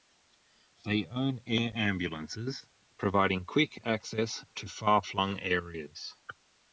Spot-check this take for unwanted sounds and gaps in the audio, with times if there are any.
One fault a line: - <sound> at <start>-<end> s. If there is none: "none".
none